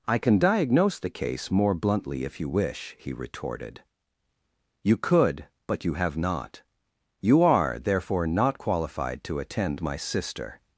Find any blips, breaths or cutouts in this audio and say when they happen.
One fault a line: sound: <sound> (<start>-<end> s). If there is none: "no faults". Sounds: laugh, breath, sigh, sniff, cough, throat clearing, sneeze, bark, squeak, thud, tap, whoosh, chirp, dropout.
no faults